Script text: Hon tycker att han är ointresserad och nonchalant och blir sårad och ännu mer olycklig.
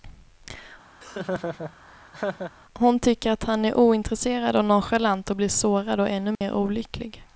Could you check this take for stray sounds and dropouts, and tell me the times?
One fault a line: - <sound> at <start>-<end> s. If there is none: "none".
- laugh at 1.0-2.5 s
- dropout at 6.4-6.4 s